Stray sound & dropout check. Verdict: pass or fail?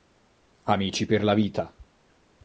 pass